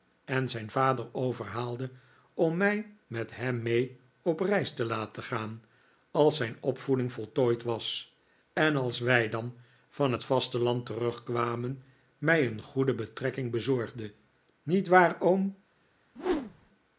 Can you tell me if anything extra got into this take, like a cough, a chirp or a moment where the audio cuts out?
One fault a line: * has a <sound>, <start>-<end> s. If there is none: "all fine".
* has a whoosh, 16.2-16.7 s